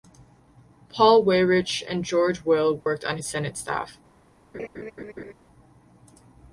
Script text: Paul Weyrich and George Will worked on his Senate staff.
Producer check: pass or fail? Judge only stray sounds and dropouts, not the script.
fail